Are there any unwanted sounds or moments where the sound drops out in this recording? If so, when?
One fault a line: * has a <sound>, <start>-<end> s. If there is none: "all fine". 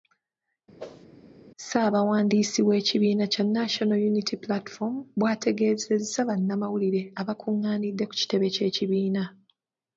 * has a whoosh, 0.8-1.1 s